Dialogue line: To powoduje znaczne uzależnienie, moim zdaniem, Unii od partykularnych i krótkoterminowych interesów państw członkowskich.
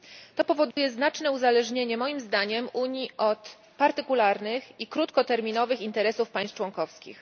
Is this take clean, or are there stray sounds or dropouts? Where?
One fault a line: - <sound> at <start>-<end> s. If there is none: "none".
- dropout at 0.7-0.8 s